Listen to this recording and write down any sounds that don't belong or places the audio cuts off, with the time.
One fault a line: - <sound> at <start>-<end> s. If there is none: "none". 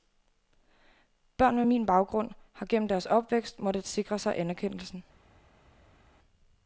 none